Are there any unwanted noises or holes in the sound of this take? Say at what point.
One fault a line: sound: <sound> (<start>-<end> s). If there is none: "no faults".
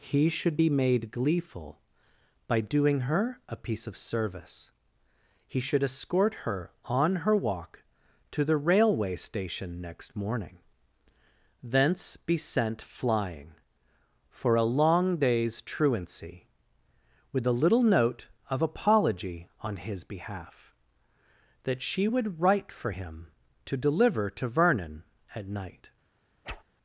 sound: whoosh (26.4-26.6 s)